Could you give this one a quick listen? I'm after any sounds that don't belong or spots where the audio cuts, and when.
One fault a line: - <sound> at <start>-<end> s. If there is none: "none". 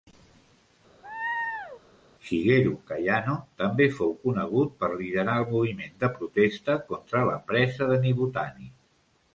- laugh at 1.0-1.8 s